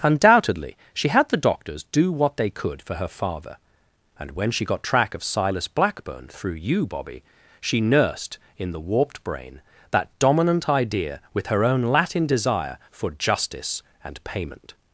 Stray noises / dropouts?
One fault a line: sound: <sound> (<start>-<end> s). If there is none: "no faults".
no faults